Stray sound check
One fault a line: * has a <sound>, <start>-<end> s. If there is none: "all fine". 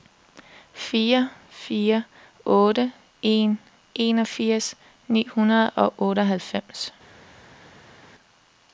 all fine